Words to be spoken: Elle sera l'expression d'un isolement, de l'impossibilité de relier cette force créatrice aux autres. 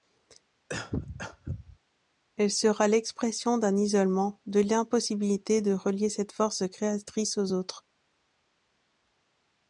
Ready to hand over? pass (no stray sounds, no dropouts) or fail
fail